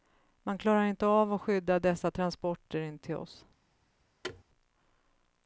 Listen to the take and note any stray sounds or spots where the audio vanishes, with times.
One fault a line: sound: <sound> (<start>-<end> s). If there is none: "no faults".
sound: thud (4.2-4.4 s)